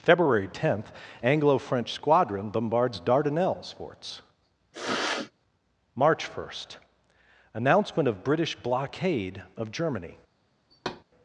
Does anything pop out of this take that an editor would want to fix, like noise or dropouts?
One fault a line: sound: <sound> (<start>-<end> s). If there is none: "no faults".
sound: sniff (4.7-5.3 s)
sound: thud (10.7-11.0 s)